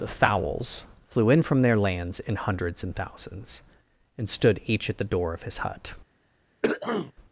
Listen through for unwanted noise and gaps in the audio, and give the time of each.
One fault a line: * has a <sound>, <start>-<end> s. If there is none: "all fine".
* has a throat clearing, 6.6-7.1 s